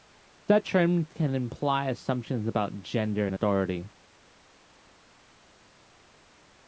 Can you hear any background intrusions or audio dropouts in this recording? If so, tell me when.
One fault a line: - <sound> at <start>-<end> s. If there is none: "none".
none